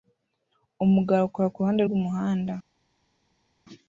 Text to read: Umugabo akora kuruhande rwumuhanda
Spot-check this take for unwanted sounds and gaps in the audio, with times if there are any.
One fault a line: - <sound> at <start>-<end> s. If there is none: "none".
none